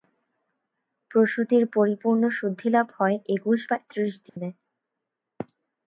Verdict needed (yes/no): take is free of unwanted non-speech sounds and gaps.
no